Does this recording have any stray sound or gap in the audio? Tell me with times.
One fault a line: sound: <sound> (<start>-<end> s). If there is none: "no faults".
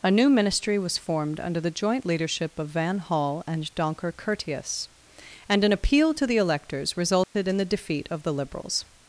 sound: dropout (7.2-7.3 s)